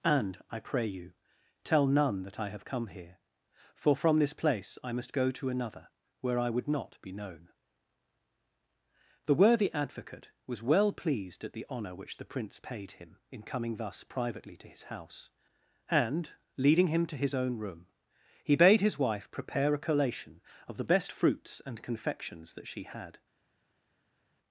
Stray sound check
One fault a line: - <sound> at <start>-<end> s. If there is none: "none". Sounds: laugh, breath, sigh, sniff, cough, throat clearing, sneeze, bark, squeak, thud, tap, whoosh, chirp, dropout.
none